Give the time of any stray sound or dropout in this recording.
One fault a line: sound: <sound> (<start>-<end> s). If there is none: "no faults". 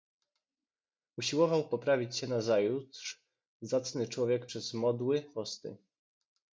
no faults